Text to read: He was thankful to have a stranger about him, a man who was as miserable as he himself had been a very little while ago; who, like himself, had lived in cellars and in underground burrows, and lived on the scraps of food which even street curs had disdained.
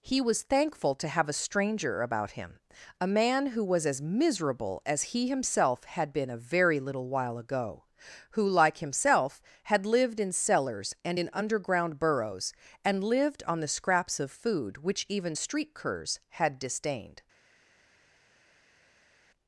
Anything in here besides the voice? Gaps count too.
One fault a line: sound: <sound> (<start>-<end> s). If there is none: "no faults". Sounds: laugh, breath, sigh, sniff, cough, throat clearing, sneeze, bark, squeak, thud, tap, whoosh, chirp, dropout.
no faults